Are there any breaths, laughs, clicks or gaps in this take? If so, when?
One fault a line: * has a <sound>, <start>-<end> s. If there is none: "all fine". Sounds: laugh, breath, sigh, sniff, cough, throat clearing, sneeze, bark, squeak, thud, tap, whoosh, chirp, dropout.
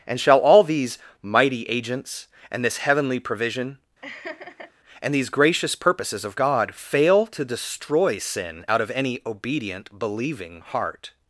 * has a laugh, 4.0-4.7 s